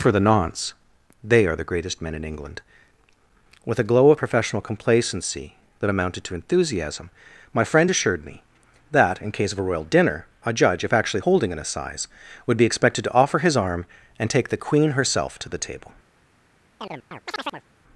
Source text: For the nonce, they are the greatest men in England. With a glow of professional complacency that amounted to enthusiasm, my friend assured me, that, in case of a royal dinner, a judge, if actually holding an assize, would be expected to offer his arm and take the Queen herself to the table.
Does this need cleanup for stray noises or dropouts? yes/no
yes